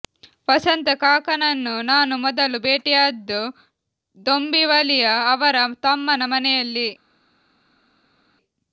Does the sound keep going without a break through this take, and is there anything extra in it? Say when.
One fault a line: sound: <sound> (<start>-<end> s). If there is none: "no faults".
no faults